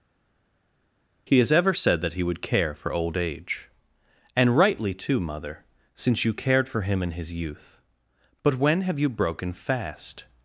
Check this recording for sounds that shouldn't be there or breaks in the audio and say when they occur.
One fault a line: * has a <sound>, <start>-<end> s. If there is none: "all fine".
all fine